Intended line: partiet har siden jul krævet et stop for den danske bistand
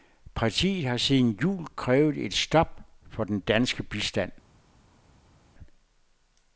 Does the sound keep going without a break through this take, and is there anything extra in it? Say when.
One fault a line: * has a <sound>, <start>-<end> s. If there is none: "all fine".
all fine